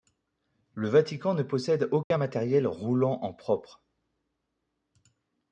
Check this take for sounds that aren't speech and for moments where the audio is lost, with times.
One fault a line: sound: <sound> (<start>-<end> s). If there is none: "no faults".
sound: dropout (2.0-2.1 s)